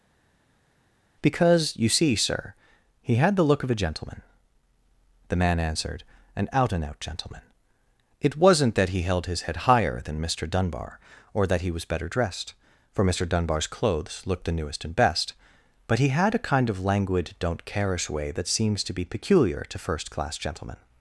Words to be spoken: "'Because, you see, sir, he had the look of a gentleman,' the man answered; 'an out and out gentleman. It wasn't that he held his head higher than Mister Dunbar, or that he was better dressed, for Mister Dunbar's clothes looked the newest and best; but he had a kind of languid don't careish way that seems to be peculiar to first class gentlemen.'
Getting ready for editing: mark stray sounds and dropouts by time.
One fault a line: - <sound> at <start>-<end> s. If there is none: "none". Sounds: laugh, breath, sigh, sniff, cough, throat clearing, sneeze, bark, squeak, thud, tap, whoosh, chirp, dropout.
none